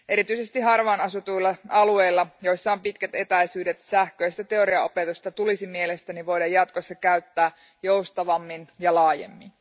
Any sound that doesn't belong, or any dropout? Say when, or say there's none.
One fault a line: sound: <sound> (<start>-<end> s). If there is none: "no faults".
no faults